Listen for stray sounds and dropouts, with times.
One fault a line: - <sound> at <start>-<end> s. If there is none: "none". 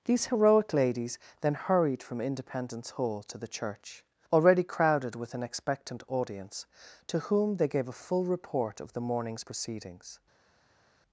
none